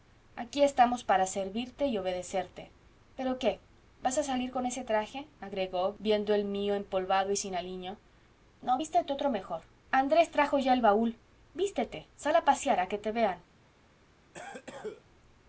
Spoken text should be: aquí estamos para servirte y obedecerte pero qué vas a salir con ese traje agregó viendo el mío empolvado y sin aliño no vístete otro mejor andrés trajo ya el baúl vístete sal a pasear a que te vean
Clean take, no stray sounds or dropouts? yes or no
no